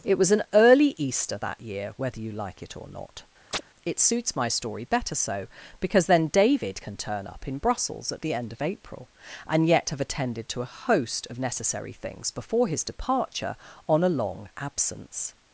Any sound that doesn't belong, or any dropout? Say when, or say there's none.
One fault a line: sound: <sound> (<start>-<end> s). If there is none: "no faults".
sound: chirp (3.5-3.6 s)